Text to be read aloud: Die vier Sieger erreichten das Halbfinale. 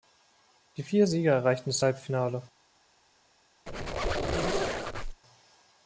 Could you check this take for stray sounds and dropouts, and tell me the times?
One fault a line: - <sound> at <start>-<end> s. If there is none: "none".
- squeak at 3.7-5.2 s